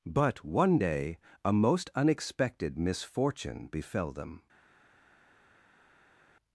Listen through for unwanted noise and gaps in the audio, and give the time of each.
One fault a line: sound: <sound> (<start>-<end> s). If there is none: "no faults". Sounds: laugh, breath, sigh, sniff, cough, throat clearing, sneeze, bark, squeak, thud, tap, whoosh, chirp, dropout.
no faults